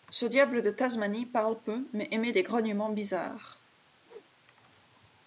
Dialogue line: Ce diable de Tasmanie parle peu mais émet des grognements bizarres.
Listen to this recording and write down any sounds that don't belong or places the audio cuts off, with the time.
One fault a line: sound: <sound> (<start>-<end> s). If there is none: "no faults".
sound: whoosh (4.0-4.3 s)